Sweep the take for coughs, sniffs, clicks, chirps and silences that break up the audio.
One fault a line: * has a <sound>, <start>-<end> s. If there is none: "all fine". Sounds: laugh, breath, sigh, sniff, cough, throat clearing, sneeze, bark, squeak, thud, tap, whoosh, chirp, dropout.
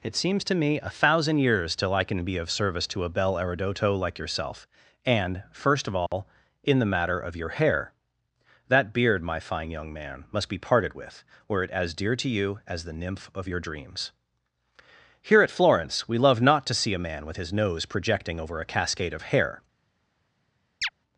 * has a dropout, 6.1-6.1 s
* has a chirp, 20.8-20.9 s